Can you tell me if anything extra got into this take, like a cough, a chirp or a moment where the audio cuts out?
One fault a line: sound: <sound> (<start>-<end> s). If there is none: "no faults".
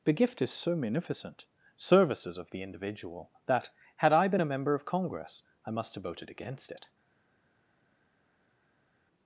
no faults